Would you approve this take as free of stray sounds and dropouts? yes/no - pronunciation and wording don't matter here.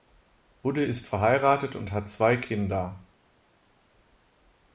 yes